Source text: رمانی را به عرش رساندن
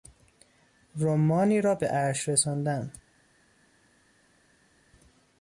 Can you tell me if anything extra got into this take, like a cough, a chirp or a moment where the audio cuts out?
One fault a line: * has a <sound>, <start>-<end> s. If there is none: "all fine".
all fine